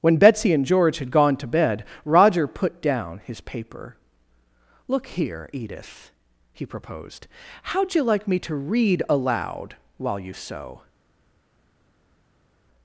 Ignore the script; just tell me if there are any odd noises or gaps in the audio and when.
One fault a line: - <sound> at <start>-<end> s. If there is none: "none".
none